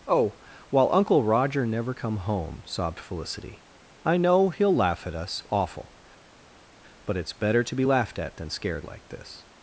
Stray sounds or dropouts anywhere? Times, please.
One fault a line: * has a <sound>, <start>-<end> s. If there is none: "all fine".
all fine